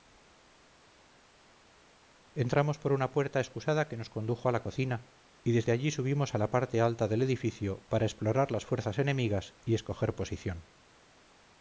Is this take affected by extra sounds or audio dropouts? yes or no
no